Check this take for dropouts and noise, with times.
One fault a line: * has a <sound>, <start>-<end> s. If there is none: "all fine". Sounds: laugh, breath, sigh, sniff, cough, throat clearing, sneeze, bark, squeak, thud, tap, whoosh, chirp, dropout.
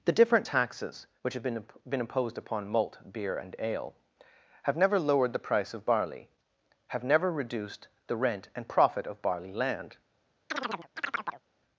* has a chirp, 10.5-11.4 s